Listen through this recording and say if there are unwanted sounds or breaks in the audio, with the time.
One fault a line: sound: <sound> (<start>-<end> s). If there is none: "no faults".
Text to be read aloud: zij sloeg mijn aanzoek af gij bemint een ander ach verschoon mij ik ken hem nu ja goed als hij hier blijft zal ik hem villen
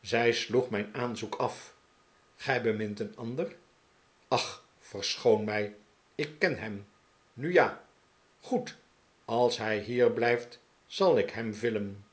no faults